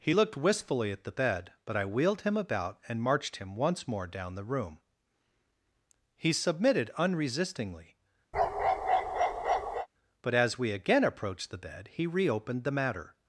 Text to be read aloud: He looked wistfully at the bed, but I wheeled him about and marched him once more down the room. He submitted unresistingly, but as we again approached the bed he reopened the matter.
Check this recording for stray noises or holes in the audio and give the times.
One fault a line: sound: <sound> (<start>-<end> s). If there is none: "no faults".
sound: bark (8.3-9.9 s)